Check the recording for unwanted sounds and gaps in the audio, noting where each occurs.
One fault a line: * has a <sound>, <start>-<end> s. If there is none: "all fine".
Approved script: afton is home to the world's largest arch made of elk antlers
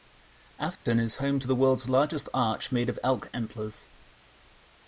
* has a dropout, 0.8-0.9 s